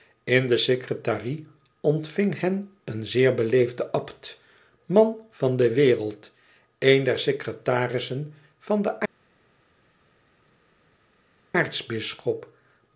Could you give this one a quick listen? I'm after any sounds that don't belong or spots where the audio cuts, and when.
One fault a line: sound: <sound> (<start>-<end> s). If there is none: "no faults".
no faults